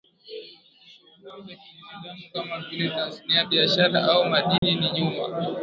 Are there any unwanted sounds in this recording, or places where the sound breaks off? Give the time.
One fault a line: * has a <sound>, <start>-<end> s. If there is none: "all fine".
* has a dropout, 4.6-4.6 s